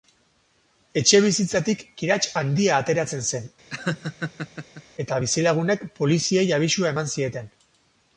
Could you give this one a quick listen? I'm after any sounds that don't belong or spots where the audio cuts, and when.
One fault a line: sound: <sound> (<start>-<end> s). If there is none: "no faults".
sound: laugh (3.7-4.8 s)